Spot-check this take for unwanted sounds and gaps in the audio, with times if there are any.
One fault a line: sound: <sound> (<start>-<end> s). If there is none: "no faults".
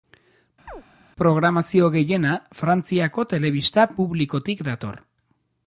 sound: chirp (0.7-0.8 s)